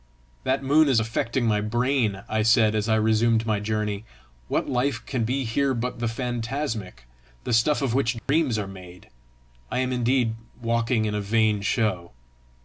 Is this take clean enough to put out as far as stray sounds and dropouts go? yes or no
no